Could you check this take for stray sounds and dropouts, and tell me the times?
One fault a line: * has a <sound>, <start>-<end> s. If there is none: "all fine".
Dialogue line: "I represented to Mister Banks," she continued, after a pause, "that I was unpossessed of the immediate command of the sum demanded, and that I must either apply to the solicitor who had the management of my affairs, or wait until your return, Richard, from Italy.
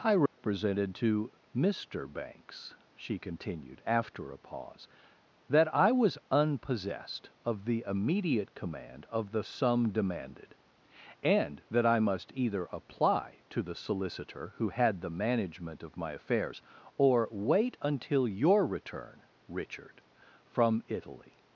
* has a dropout, 0.3-0.4 s